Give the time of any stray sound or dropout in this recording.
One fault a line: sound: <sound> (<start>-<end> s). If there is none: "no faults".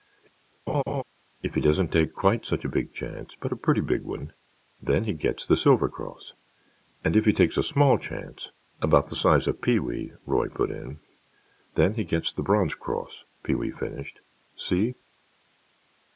sound: laugh (0.7-1.0 s)